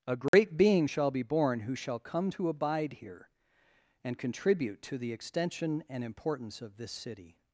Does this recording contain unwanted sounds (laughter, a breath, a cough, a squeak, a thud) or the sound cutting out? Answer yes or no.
yes